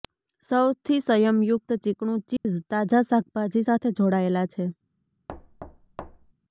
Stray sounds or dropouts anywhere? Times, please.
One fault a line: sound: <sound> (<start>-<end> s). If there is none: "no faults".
sound: dropout (2.4-2.5 s)
sound: thud (5.3-6.3 s)